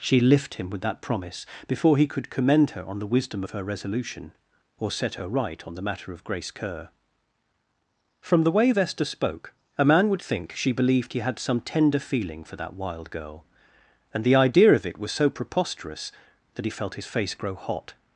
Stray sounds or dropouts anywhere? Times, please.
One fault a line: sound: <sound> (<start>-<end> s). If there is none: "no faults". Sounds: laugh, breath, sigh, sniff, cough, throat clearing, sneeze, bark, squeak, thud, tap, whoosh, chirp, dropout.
no faults